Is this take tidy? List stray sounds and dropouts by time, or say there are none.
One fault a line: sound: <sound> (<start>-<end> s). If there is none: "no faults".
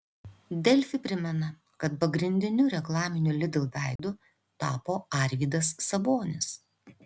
sound: dropout (4.0-4.0 s)